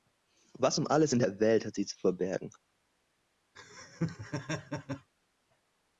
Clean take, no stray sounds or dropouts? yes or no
no